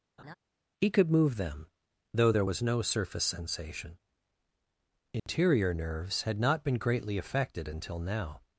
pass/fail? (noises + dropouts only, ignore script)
fail